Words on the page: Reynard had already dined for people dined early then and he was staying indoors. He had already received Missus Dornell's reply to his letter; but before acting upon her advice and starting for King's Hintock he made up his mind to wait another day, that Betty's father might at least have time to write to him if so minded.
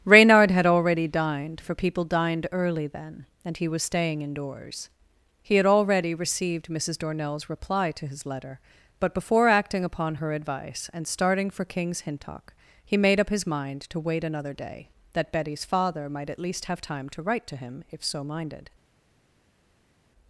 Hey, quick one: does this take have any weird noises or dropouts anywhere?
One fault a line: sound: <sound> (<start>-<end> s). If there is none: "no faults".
no faults